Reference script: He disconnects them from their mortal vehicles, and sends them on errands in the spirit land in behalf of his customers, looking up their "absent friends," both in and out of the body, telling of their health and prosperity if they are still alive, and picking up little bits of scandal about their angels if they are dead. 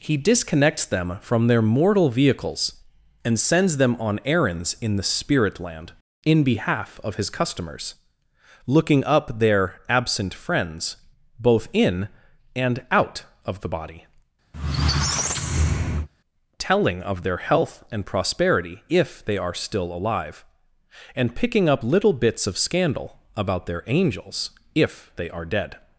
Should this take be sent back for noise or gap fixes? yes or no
yes